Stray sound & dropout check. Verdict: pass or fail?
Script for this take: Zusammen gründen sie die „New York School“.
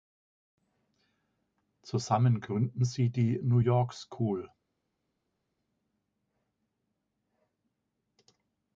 pass